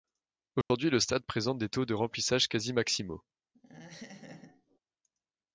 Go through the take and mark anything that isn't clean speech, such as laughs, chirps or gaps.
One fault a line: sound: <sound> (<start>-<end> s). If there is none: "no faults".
sound: dropout (0.6-0.7 s)
sound: laugh (3.5-4.8 s)